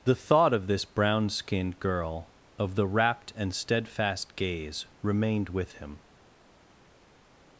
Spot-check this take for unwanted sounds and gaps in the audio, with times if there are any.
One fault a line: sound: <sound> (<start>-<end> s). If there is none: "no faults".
no faults